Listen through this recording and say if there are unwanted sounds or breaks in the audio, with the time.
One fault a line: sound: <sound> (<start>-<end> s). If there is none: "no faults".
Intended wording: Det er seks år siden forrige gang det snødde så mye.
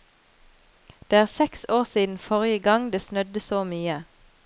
no faults